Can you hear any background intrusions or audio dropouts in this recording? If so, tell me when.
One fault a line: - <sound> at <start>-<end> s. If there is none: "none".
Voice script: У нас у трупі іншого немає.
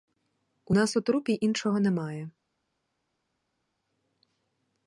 none